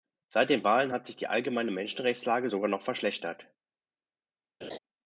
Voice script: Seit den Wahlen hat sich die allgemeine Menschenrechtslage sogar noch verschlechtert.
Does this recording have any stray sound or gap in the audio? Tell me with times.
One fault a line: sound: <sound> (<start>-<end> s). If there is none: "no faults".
sound: laugh (4.6-4.8 s)